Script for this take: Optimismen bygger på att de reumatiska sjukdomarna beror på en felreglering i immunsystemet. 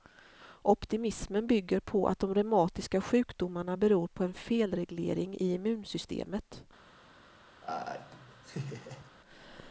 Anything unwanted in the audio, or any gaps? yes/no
yes